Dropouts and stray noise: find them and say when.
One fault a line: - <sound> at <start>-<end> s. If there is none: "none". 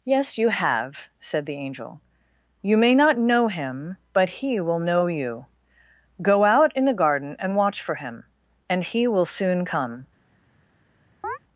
- chirp at 11.2-11.4 s